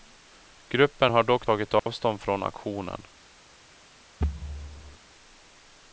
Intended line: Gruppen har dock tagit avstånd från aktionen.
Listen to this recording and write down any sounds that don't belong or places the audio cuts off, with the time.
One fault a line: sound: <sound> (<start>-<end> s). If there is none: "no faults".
sound: dropout (1.8-1.9 s)
sound: thud (4.2-5.0 s)